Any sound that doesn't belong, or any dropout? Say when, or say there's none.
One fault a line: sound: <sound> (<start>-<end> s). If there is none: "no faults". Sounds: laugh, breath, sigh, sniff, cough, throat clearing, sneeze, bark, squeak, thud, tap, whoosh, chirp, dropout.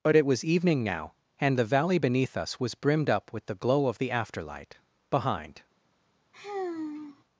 sound: sigh (6.3-7.2 s)